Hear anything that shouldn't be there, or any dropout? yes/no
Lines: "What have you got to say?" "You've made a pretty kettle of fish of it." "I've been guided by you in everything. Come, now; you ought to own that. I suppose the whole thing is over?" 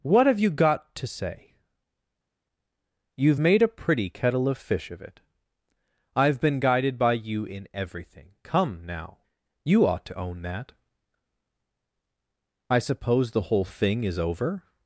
no